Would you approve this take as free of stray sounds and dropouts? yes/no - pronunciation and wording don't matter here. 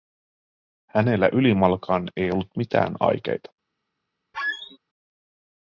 no